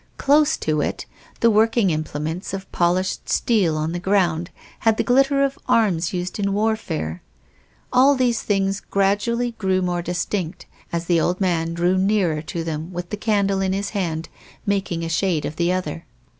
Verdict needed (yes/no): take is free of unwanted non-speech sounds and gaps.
yes